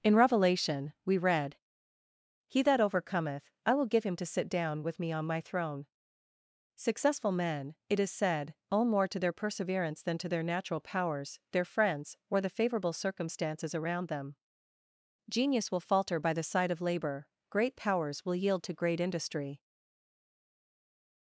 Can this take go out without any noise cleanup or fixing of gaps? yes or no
yes